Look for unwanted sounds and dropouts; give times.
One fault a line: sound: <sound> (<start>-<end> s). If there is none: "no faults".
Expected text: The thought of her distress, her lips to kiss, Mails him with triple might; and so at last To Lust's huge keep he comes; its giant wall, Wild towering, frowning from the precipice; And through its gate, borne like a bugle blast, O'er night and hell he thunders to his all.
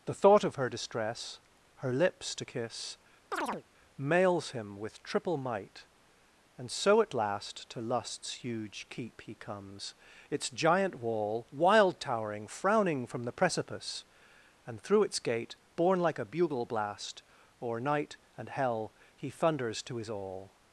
sound: chirp (3.3-3.6 s)